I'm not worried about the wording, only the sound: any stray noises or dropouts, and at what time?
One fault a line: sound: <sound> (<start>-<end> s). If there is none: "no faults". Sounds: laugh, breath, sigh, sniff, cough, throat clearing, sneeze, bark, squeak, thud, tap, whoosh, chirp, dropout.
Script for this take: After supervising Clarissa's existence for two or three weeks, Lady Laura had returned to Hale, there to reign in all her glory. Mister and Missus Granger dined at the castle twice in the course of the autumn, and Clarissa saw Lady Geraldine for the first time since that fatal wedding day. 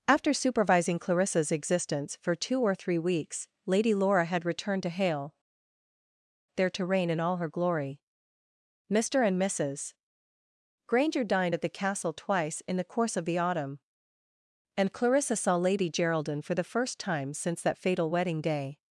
no faults